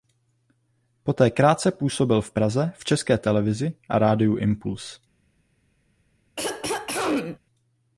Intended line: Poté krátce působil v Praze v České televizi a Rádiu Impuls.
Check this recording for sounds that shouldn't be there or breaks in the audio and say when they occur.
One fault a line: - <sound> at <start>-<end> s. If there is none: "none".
- throat clearing at 6.4-7.4 s